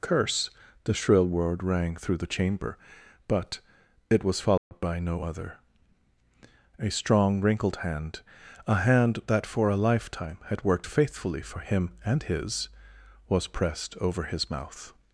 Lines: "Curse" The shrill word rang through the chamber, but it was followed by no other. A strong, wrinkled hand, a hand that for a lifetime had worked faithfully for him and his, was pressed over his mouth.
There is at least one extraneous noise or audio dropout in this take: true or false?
true